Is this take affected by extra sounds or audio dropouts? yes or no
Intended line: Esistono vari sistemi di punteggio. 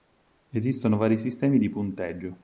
no